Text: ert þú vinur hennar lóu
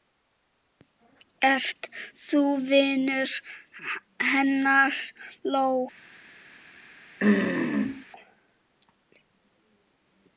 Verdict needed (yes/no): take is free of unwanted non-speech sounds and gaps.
no